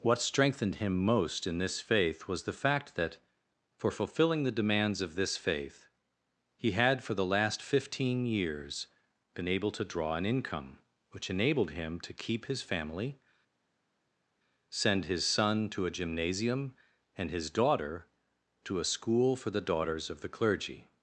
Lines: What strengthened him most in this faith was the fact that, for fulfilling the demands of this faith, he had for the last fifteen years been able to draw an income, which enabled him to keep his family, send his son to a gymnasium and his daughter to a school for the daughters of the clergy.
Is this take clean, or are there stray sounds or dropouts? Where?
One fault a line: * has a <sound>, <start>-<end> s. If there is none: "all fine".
all fine